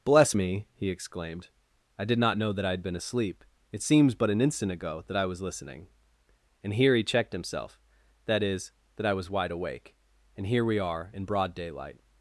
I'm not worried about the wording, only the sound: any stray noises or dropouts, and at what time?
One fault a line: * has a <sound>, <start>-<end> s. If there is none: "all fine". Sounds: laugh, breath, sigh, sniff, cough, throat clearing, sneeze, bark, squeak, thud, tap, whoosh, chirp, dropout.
all fine